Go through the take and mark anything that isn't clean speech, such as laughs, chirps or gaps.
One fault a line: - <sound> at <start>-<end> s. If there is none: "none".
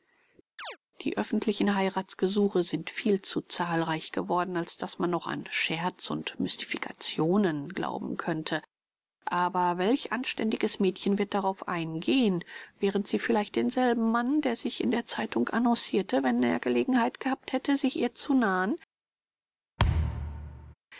- chirp at 0.6-0.8 s
- thud at 19.8-20.7 s